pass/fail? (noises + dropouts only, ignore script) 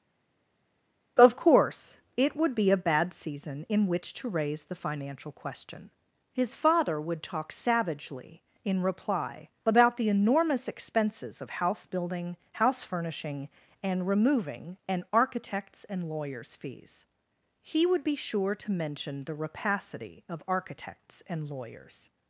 pass